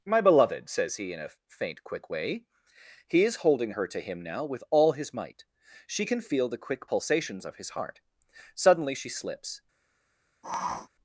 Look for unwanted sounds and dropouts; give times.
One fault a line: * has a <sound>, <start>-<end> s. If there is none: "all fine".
* has a sniff, 10.4-10.9 s